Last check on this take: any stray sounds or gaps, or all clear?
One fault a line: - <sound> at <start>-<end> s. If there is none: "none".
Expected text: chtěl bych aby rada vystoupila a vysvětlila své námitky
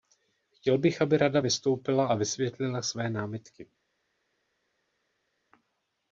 none